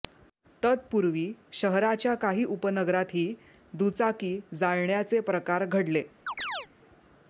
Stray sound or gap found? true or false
true